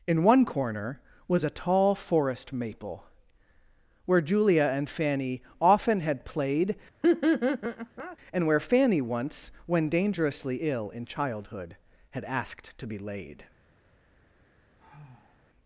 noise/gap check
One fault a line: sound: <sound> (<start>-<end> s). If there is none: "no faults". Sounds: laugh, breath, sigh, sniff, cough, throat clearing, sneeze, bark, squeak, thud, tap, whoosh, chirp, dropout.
sound: laugh (7.0-8.2 s)
sound: sigh (14.8-15.5 s)